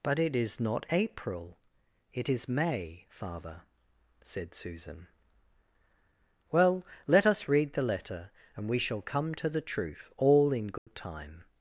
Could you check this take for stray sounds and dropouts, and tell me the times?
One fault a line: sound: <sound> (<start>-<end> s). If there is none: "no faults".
sound: dropout (10.8-10.9 s)